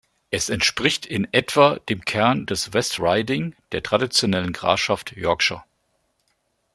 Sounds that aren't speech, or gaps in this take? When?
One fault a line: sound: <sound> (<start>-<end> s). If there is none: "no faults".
no faults